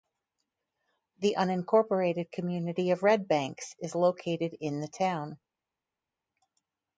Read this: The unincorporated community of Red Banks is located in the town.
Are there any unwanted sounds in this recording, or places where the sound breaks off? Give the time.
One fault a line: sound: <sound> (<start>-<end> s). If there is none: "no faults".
no faults